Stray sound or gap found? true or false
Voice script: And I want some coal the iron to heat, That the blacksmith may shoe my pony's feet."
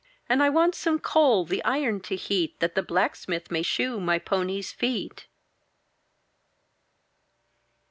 false